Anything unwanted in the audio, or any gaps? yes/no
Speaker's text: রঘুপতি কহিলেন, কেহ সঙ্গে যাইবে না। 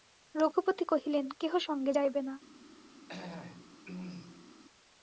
yes